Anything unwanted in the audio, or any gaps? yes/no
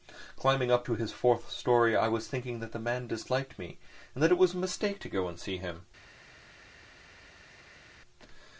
no